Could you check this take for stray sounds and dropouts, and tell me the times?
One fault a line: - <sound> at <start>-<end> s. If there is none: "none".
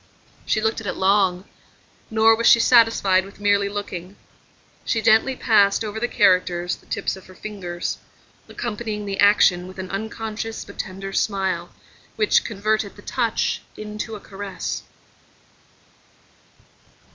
none